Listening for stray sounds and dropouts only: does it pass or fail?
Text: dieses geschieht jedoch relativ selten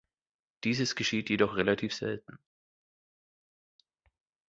pass